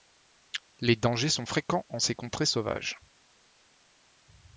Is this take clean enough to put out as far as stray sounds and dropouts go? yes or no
yes